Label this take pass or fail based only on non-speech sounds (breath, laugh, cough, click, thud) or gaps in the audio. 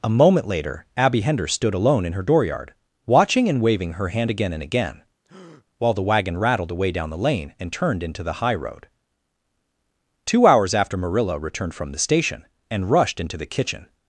fail